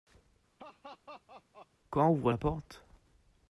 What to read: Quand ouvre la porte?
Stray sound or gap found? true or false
true